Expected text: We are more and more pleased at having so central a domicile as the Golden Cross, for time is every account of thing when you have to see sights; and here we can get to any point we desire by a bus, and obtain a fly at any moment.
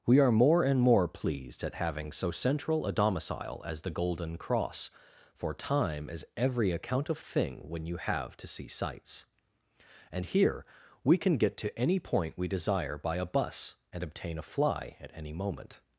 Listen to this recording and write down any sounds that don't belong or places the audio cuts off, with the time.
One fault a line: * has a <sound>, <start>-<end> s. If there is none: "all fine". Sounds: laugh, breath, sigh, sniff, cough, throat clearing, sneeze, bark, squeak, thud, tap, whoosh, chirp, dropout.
all fine